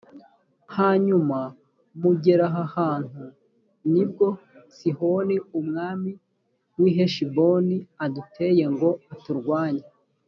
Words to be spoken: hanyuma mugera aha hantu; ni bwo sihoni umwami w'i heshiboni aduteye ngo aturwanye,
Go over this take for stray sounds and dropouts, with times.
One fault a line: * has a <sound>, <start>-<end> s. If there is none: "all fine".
all fine